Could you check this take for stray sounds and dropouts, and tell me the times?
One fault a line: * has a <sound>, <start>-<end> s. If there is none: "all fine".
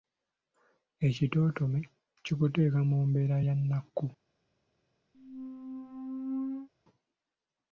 * has a squeak, 5.1-6.7 s